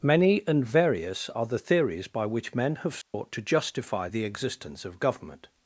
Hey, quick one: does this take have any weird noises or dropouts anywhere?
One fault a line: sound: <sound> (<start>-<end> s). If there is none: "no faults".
sound: dropout (3.0-3.1 s)